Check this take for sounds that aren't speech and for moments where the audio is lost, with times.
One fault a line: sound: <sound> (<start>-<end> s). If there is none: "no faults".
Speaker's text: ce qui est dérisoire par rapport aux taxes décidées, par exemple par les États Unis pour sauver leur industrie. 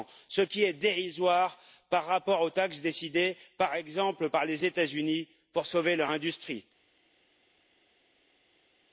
no faults